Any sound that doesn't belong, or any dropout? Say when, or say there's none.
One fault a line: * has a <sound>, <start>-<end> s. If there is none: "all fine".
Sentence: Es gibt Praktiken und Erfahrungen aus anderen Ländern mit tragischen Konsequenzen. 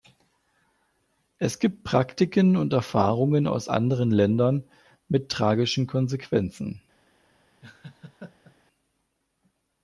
* has a laugh, 7.6-8.6 s